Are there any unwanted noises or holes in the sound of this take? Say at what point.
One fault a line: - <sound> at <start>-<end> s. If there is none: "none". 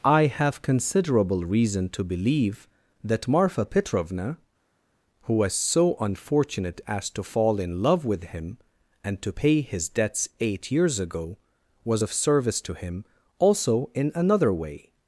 none